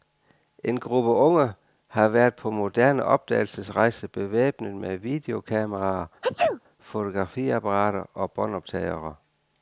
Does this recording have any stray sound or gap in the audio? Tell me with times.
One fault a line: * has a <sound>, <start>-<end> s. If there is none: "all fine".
* has a sneeze, 6.2-6.6 s